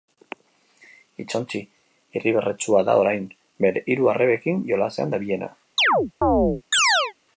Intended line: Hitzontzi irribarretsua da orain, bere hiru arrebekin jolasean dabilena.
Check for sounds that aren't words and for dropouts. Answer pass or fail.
fail